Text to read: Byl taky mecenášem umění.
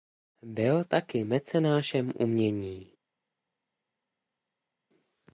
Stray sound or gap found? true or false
false